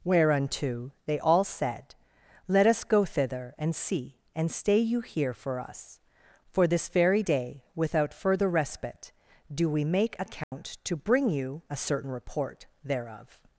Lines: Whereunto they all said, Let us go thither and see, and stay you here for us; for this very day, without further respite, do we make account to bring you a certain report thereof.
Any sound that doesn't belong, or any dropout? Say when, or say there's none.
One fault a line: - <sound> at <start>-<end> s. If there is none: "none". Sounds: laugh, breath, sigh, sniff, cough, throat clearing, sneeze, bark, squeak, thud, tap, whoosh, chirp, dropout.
- dropout at 10.4-10.5 s